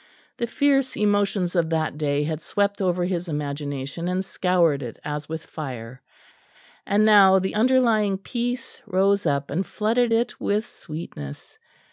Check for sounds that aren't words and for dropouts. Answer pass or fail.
pass